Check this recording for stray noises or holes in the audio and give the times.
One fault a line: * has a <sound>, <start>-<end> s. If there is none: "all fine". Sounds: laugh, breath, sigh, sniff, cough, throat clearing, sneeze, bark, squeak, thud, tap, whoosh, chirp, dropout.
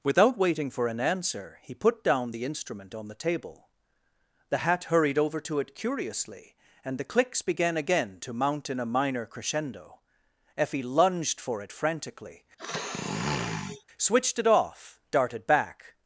* has a sniff, 12.6-13.8 s